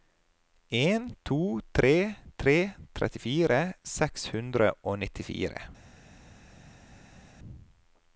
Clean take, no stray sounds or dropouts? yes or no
yes